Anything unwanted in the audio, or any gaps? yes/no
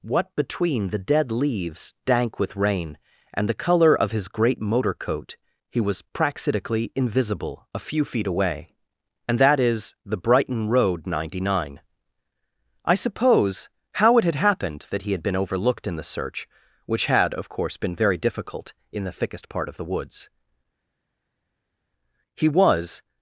no